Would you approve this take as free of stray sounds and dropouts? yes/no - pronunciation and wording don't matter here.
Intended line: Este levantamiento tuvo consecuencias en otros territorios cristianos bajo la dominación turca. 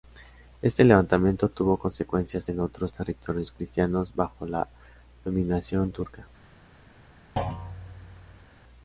no